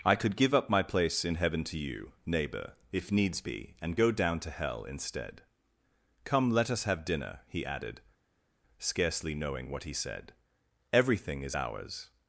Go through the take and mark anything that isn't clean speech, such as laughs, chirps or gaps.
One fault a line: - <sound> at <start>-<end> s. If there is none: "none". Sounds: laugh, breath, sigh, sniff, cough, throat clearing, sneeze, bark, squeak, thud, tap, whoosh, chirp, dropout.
none